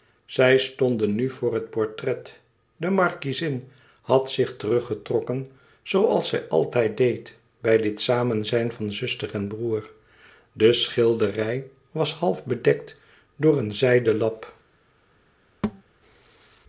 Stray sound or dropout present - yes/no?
yes